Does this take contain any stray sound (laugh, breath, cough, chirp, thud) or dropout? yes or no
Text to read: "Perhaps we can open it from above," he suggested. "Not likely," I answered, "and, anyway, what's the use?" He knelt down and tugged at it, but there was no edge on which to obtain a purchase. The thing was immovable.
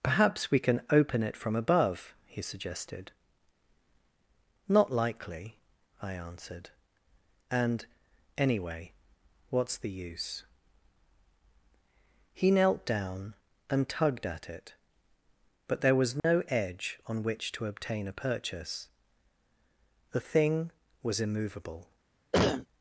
yes